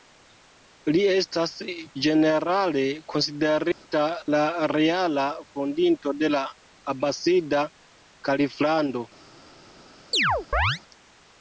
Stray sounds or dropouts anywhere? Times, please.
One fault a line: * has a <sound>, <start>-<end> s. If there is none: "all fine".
* has a dropout, 3.7-3.8 s
* has a chirp, 10.1-10.8 s